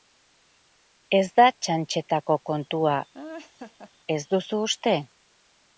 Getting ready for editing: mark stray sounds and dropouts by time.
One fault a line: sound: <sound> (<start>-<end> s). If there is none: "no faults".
sound: laugh (3.1-3.9 s)